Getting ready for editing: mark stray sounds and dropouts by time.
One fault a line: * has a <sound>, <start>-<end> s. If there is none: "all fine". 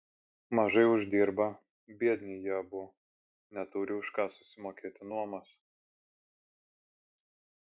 all fine